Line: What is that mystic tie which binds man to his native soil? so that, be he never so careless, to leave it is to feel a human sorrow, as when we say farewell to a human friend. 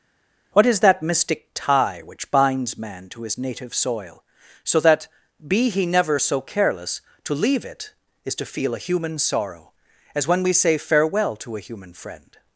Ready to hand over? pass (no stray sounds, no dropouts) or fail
pass